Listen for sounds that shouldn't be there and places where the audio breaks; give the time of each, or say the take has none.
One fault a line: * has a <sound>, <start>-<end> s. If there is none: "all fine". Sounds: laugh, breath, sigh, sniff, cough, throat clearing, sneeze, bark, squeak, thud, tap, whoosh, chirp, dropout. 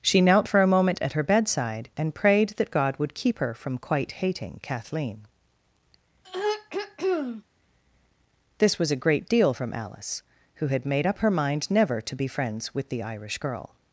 * has a throat clearing, 6.2-7.4 s